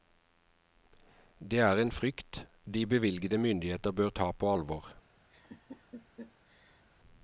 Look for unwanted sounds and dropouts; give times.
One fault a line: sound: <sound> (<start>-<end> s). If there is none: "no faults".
sound: laugh (5.3-6.8 s)